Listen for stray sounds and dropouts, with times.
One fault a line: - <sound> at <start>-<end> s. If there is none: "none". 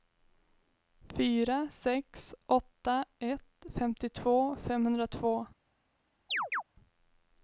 - chirp at 6.3-6.6 s